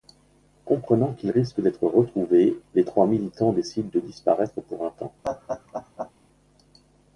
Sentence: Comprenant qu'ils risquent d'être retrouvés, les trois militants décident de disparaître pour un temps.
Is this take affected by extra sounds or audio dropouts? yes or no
yes